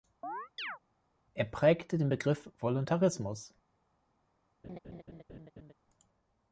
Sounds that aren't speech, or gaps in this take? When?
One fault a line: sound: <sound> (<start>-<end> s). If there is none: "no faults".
sound: chirp (0.2-0.8 s)
sound: laugh (4.6-5.7 s)